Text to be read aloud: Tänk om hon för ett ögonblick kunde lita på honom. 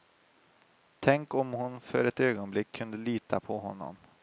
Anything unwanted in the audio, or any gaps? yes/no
no